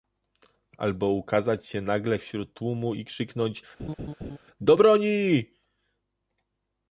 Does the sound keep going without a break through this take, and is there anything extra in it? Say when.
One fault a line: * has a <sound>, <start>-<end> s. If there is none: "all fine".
* has a laugh, 3.8-4.4 s